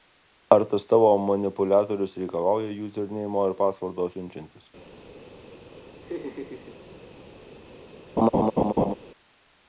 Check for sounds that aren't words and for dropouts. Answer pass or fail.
fail